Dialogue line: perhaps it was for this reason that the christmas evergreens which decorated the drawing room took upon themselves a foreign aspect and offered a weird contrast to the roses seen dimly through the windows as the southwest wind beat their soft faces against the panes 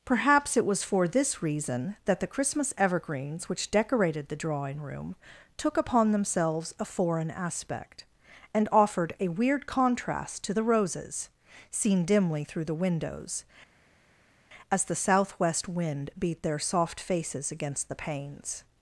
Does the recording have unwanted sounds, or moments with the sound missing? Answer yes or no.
no